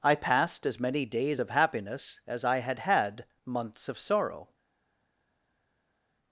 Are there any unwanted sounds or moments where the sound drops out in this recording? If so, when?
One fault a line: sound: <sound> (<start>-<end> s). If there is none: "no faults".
no faults